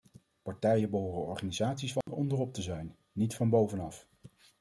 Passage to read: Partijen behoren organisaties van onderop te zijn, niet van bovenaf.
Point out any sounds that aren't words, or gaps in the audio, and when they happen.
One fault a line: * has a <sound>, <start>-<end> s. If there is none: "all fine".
* has a dropout, 2.0-2.1 s